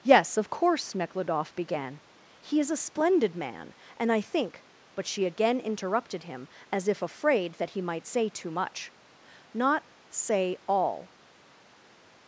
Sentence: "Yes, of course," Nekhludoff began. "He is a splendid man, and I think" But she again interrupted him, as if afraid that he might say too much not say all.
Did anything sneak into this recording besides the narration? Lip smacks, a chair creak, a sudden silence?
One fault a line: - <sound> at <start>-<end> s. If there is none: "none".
none